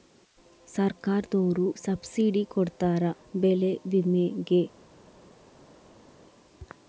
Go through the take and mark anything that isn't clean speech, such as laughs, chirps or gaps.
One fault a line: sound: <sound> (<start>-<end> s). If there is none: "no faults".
no faults